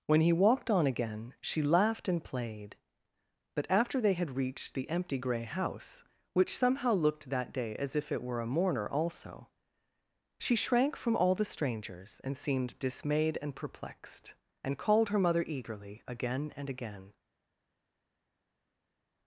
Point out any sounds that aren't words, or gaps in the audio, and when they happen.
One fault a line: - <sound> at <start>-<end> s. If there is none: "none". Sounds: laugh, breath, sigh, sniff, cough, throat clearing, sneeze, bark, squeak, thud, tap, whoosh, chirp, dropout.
none